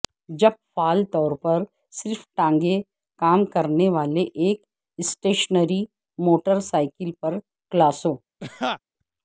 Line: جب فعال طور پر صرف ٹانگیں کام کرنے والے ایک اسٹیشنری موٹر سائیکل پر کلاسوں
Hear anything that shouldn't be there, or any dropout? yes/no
yes